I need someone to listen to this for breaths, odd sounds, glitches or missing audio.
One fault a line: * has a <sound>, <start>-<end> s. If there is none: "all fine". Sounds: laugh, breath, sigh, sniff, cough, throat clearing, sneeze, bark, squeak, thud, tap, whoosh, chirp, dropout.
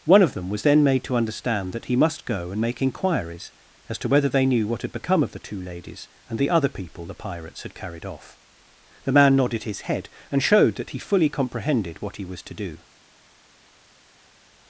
all fine